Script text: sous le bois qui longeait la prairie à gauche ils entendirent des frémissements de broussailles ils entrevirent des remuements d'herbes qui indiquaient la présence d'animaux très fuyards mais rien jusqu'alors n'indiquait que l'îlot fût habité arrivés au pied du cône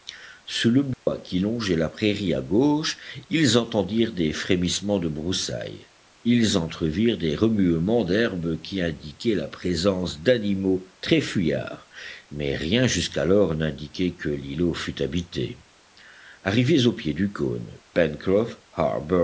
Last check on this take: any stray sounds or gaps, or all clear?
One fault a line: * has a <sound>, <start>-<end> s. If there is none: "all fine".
* has a dropout, 0.9-1.1 s